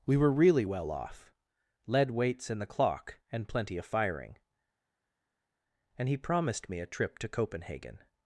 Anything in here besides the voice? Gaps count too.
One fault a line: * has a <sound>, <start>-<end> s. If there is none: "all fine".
all fine